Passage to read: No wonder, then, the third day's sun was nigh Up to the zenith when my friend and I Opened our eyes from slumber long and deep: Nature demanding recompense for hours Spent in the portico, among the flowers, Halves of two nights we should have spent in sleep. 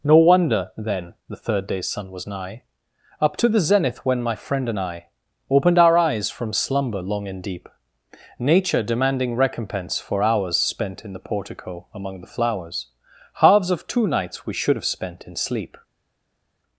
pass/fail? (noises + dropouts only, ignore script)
pass